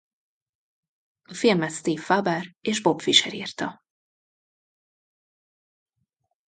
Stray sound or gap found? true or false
false